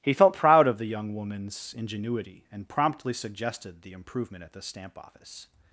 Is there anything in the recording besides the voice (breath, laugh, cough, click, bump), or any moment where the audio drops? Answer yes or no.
no